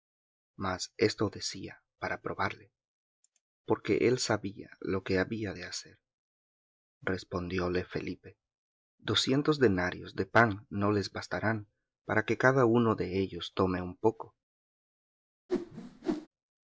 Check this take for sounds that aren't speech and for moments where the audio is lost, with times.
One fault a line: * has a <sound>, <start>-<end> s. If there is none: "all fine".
* has a whoosh, 15.5-16.3 s